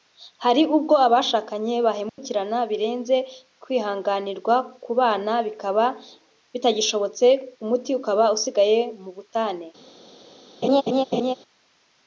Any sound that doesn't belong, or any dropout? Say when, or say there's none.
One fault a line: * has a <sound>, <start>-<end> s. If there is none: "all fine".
* has a dropout, 2.1-2.2 s
* has a laugh, 10.6-11.3 s